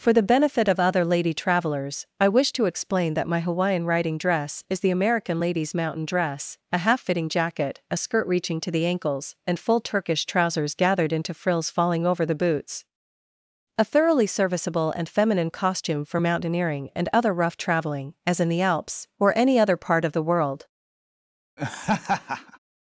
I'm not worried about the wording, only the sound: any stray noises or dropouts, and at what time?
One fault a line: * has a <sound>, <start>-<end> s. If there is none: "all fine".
* has a laugh, 21.6-22.6 s